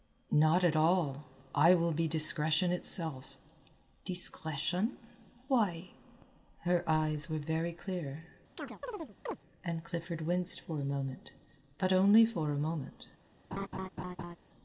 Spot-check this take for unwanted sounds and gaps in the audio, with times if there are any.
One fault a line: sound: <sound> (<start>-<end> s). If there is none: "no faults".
sound: chirp (8.6-9.4 s)
sound: laugh (13.5-14.4 s)